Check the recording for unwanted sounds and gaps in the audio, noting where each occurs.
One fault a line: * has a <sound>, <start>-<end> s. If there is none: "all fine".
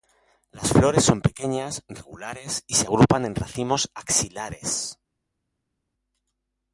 all fine